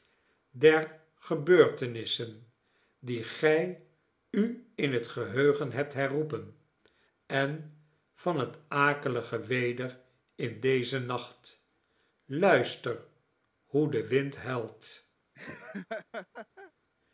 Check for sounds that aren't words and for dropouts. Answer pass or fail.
fail